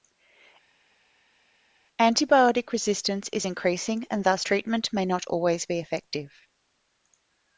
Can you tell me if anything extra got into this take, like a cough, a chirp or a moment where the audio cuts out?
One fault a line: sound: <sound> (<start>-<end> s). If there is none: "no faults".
no faults